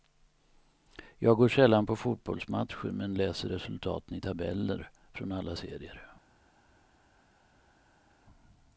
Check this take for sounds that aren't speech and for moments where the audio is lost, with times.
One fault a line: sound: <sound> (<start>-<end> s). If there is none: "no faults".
no faults